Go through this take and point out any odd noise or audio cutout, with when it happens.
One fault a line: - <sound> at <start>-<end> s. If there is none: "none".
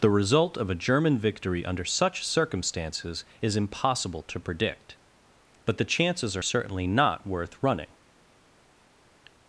none